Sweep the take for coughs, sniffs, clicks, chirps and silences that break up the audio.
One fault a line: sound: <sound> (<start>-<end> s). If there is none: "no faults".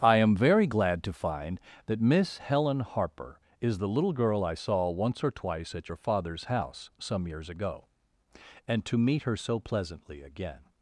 no faults